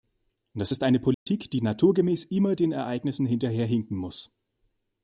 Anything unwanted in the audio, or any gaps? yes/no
yes